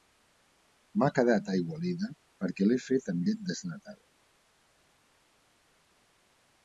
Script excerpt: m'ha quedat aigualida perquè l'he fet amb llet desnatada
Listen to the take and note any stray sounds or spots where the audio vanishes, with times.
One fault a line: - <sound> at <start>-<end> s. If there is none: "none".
none